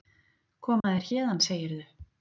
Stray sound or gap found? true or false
true